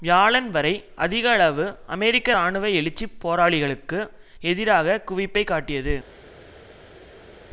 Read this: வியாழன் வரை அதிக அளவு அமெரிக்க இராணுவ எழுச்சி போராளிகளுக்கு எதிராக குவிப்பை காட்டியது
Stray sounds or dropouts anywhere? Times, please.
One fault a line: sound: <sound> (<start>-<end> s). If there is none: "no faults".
no faults